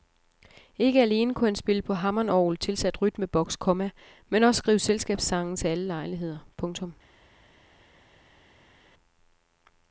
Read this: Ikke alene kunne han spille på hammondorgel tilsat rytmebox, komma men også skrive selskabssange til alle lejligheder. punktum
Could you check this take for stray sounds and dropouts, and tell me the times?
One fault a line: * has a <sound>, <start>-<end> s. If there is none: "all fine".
all fine